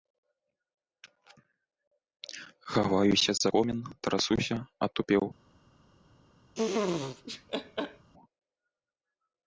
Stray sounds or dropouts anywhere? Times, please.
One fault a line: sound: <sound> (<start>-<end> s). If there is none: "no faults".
sound: laugh (6.5-8.1 s)